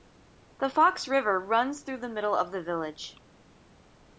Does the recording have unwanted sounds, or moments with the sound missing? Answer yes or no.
no